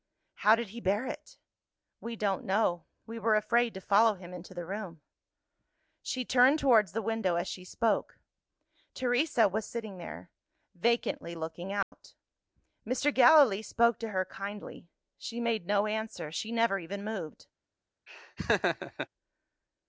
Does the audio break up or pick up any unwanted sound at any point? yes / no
yes